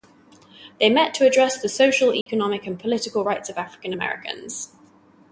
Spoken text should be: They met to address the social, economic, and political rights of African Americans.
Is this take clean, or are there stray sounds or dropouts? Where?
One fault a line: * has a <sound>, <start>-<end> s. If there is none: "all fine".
* has a dropout, 2.2-2.3 s